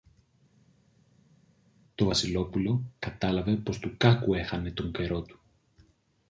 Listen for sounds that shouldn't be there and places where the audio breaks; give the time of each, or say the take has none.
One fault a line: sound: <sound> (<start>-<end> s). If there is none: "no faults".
no faults